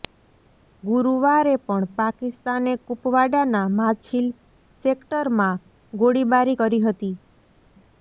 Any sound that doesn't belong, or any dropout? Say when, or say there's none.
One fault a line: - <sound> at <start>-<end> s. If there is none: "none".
none